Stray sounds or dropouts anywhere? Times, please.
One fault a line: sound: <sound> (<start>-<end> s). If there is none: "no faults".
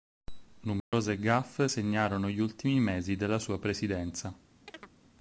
sound: dropout (0.8-0.9 s)
sound: chirp (4.7-4.9 s)